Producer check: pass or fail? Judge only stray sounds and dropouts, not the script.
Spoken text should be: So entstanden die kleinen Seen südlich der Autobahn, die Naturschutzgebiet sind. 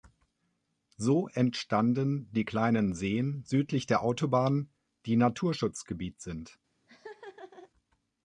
fail